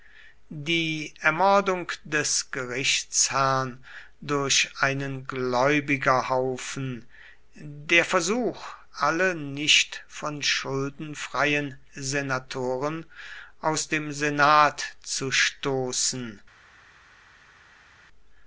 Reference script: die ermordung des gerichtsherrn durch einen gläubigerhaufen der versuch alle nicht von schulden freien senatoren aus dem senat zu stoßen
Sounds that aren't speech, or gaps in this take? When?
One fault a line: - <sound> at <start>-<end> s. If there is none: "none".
none